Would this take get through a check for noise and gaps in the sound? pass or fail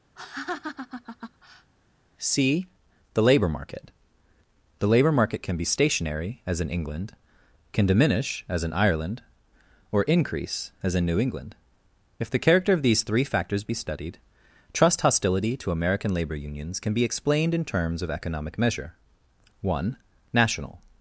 fail